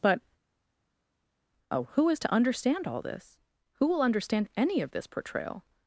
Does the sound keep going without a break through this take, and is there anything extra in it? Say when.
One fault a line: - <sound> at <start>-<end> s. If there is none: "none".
none